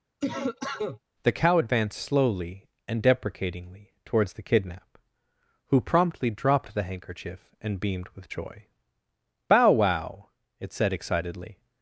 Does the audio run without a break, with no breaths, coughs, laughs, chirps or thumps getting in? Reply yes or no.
no